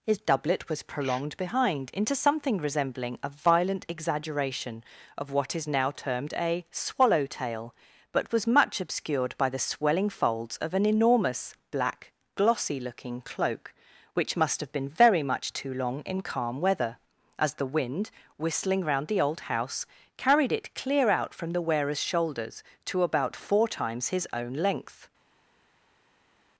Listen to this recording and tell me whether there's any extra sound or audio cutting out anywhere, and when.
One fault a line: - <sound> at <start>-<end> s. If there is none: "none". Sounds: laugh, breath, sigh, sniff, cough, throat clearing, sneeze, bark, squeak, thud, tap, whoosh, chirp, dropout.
none